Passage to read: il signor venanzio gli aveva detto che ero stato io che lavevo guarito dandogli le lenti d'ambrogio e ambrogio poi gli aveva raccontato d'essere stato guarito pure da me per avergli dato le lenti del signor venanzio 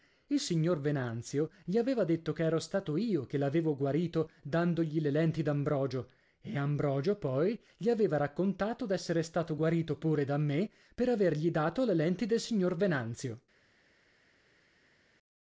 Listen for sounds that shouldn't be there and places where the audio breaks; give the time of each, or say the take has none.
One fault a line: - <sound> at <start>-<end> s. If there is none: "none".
none